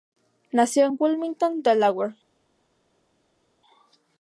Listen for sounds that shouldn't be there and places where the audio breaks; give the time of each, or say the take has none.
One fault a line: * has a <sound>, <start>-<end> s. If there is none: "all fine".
all fine